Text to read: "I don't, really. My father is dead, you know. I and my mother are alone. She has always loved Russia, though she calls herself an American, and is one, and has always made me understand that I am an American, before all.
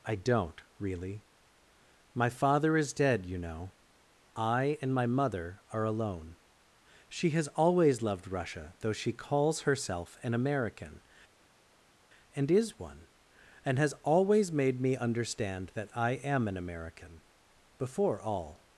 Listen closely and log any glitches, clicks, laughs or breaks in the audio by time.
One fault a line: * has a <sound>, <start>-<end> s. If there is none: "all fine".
all fine